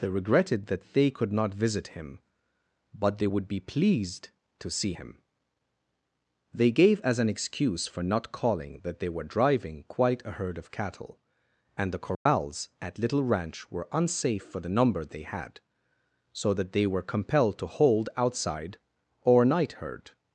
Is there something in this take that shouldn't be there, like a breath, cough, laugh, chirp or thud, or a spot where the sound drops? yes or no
yes